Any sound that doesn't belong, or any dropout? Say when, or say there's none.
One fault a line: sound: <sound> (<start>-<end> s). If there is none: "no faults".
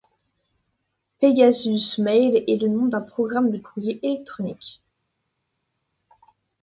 no faults